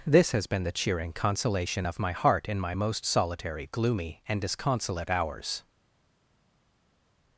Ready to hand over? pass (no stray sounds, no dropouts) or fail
pass